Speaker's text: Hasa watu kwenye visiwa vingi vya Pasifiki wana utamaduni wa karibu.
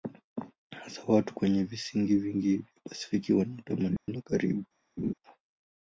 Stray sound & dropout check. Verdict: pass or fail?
fail